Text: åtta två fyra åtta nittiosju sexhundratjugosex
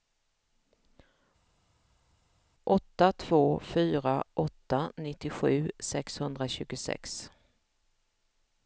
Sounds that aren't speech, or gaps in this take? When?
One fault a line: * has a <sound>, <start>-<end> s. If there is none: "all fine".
all fine